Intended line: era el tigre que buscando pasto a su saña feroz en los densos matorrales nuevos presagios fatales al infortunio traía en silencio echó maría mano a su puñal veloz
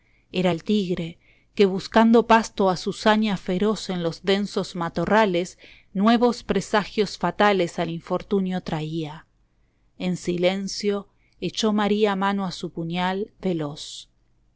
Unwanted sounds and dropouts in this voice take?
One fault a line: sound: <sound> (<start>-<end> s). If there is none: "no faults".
no faults